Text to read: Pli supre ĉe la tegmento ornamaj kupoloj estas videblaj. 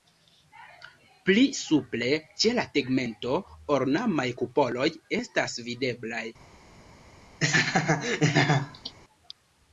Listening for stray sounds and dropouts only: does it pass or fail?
fail